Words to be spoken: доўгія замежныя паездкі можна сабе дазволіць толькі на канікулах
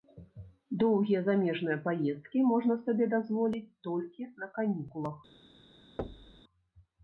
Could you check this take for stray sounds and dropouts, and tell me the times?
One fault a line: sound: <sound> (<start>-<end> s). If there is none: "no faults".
sound: thud (6.0-6.4 s)